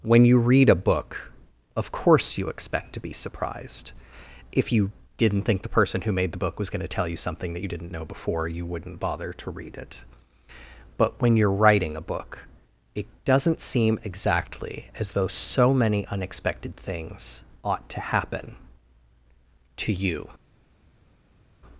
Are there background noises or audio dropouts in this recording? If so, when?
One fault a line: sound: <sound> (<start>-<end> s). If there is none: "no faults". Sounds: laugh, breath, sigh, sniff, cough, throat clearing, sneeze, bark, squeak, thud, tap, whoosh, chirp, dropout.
no faults